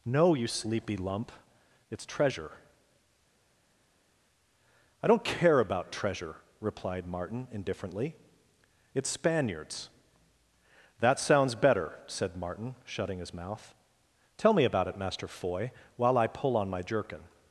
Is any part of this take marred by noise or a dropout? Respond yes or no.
no